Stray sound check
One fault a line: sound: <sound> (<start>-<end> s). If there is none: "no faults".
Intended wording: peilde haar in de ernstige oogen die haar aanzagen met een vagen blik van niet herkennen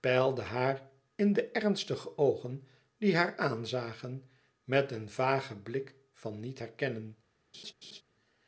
sound: laugh (7.5-8.0 s)